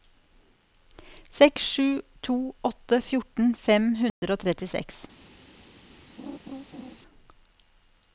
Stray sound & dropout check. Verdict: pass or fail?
fail